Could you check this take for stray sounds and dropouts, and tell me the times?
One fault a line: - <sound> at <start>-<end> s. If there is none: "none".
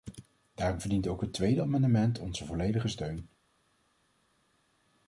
none